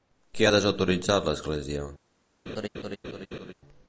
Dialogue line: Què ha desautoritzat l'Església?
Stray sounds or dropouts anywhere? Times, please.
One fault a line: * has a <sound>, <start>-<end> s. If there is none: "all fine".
* has a laugh, 2.5-3.5 s